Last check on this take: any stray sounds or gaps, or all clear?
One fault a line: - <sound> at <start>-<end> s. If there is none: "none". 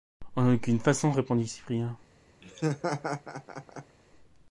- laugh at 2.4-4.0 s